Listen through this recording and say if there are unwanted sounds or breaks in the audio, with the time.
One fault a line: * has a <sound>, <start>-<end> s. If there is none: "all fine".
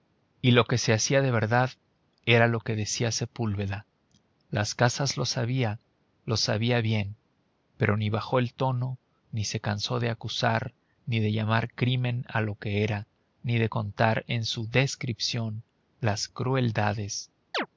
* has a chirp, 17.5-17.7 s